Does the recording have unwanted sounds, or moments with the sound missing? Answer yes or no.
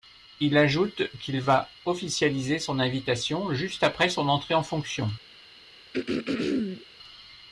yes